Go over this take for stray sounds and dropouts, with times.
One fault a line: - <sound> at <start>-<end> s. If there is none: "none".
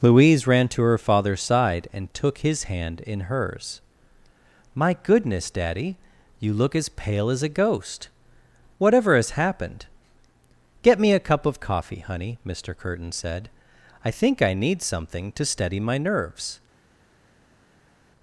none